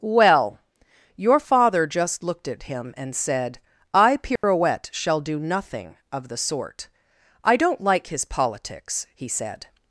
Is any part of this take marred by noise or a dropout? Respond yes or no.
yes